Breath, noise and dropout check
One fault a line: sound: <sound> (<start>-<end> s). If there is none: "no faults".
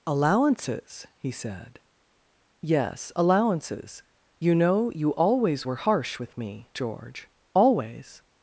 no faults